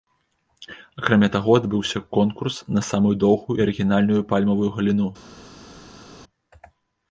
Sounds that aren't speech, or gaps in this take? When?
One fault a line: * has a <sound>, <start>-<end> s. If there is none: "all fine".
all fine